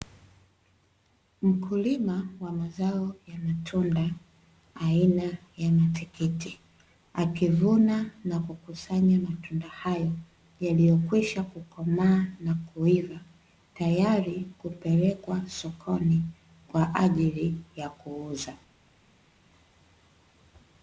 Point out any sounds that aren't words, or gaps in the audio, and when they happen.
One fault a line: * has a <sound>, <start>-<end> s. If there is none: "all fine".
all fine